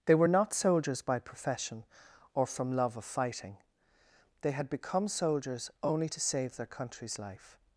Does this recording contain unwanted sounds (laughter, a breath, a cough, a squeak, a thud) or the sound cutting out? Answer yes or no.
no